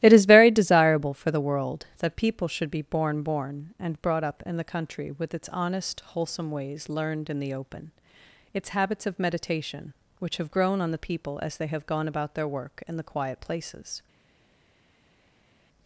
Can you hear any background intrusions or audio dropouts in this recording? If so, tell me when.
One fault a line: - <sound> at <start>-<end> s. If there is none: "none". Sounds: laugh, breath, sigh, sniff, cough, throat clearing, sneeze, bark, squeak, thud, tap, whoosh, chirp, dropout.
none